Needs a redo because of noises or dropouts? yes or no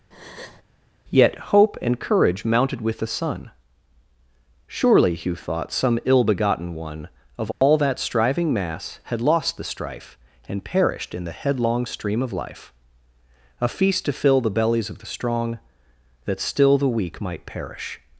yes